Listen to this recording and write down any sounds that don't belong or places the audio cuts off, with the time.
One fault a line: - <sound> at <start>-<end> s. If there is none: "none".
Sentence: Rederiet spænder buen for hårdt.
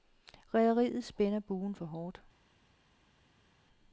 none